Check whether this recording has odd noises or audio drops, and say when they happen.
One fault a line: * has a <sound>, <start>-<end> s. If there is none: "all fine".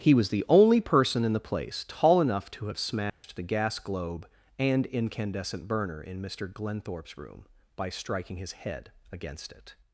* has a dropout, 3.1-3.2 s